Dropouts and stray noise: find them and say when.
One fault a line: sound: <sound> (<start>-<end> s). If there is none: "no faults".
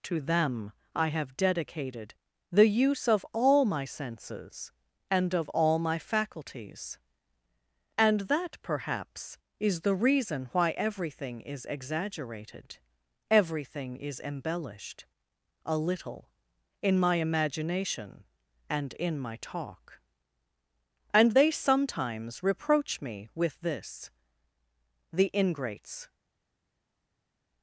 no faults